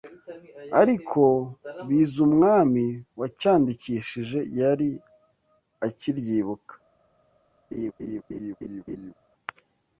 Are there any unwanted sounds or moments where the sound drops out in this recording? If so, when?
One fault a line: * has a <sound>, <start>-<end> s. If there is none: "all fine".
* has a laugh, 7.7-9.1 s